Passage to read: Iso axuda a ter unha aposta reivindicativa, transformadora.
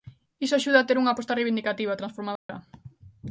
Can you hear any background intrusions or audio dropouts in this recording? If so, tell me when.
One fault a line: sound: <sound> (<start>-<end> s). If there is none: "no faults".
sound: dropout (2.4-2.5 s)